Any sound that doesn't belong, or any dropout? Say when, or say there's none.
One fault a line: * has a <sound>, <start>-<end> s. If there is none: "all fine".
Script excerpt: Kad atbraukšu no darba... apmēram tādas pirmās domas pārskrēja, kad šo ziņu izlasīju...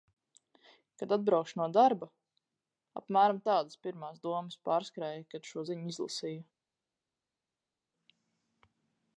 all fine